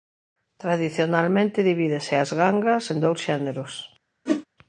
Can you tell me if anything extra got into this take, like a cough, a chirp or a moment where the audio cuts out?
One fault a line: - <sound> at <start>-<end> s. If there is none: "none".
- whoosh at 4.3-4.5 s